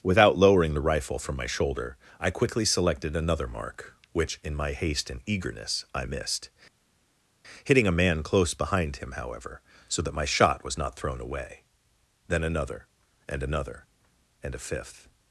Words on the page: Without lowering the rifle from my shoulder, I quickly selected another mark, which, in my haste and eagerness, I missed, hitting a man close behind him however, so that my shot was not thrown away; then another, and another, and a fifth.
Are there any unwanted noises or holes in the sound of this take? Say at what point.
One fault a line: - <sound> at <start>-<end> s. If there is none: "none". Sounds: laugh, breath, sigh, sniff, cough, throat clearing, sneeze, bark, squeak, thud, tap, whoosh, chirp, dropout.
none